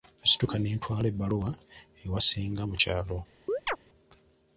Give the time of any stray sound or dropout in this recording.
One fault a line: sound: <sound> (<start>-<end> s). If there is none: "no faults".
sound: chirp (3.5-3.8 s)